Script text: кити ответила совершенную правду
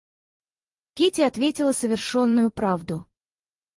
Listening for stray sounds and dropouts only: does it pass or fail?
pass